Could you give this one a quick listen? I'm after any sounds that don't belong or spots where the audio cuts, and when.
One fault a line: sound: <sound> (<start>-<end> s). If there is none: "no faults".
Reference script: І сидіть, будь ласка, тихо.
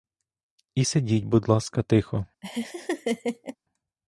sound: laugh (2.4-3.6 s)